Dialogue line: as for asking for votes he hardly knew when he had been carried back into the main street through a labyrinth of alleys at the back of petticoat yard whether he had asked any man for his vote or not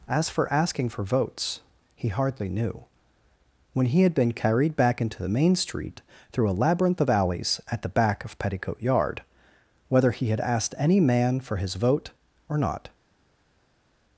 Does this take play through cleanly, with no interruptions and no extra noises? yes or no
yes